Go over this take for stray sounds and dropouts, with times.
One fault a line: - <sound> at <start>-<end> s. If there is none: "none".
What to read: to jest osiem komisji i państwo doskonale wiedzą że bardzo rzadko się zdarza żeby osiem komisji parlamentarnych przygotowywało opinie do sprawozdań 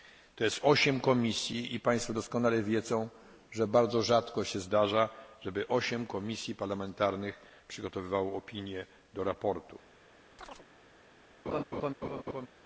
- chirp at 10.4-10.7 s
- laugh at 11.5-12.5 s